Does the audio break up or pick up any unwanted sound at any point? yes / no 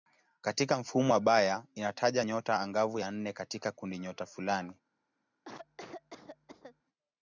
yes